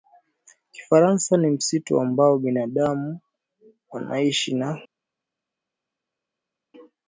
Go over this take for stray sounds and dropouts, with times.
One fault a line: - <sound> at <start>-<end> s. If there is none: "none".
none